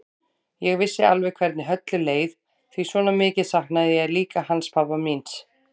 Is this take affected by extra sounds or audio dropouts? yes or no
no